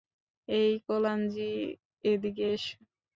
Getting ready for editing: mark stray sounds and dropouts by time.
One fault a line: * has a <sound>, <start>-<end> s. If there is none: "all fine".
all fine